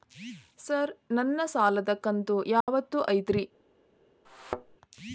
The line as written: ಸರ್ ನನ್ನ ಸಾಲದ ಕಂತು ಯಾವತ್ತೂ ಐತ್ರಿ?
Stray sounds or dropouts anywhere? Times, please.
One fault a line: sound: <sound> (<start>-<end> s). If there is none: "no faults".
sound: dropout (2.6-2.7 s)
sound: thud (4.2-4.8 s)